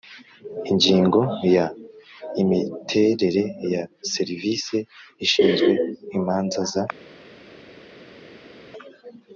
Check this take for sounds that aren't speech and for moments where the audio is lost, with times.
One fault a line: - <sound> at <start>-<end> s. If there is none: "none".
none